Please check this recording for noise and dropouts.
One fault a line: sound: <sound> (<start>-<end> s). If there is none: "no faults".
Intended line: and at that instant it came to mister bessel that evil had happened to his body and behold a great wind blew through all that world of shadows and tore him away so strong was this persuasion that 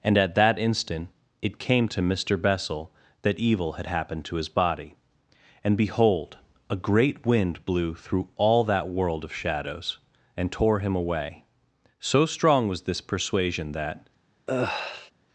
sound: sigh (14.5-15.1 s)